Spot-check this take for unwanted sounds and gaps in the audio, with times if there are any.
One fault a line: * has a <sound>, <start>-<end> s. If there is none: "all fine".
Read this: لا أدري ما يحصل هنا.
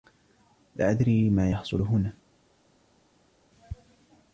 all fine